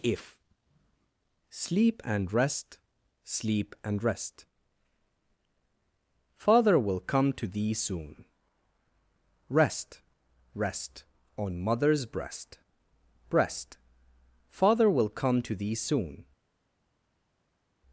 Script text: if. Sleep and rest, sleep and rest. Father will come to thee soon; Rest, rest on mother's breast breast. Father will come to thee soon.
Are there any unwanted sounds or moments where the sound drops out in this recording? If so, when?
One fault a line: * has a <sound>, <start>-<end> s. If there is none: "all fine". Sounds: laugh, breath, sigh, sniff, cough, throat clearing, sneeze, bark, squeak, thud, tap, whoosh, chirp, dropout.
all fine